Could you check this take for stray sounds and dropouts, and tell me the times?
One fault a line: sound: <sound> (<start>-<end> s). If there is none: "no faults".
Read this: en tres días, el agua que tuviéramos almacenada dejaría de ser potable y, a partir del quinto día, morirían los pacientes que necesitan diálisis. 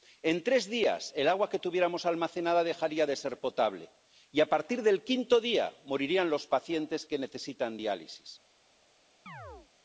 sound: chirp (9.3-9.7 s)